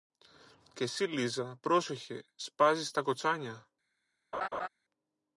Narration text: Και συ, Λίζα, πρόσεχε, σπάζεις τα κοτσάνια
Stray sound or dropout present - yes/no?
yes